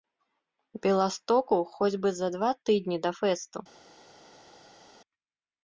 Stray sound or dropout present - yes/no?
no